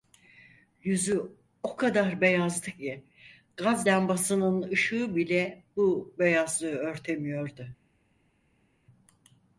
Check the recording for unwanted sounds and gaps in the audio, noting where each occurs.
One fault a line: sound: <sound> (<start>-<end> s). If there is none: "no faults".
no faults